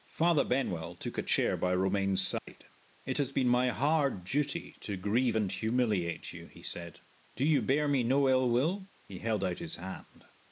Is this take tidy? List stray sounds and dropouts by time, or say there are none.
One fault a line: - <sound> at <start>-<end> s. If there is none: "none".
- dropout at 2.4-2.5 s